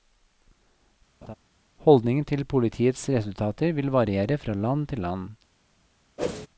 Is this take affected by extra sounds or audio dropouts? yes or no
yes